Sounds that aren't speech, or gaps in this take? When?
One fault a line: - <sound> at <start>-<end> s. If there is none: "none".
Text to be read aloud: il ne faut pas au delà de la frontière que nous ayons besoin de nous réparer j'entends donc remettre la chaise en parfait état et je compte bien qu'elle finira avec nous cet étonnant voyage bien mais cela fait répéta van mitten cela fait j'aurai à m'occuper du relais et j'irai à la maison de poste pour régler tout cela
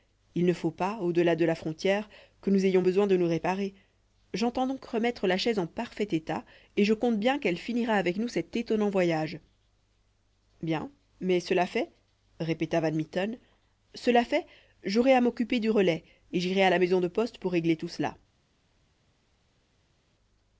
none